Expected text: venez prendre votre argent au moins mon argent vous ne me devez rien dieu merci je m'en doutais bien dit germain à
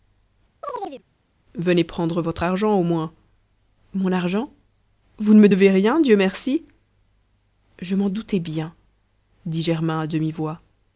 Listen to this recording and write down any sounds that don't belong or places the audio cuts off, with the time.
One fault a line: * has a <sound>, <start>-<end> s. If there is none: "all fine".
* has a chirp, 0.6-1.0 s